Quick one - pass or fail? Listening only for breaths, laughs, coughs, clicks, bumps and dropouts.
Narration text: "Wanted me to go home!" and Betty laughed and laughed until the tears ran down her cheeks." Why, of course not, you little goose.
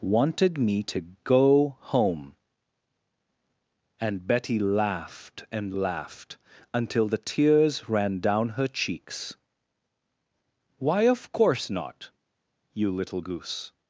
pass